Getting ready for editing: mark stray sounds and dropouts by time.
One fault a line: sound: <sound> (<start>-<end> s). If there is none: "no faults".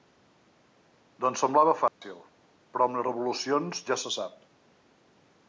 sound: dropout (1.9-2.0 s)